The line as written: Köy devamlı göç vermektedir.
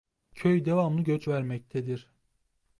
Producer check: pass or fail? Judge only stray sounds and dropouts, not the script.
pass